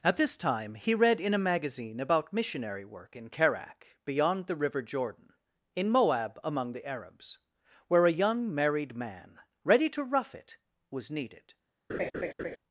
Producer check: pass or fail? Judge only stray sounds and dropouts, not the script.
fail